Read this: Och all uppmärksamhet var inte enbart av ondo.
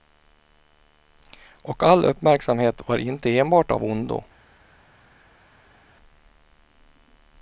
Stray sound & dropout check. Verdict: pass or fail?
pass